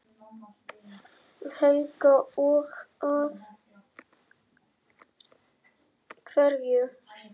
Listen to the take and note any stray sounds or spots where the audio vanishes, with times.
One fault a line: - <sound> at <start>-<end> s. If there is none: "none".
none